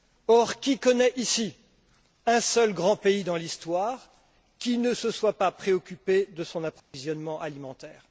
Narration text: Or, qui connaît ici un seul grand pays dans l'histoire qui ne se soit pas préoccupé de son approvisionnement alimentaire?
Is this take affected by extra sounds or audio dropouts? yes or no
yes